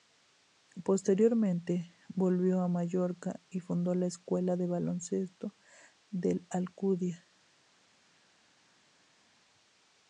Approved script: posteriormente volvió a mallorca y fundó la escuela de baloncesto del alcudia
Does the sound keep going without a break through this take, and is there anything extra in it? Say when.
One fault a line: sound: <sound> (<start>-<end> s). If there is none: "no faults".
no faults